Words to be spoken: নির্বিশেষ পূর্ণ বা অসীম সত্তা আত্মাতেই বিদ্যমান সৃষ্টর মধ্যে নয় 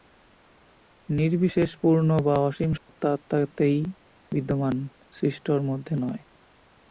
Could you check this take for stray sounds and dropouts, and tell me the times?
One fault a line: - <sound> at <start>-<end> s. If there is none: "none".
- dropout at 2.8-2.9 s